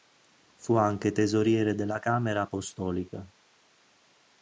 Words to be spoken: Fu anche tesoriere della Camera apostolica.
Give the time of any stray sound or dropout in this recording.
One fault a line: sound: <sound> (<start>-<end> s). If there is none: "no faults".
no faults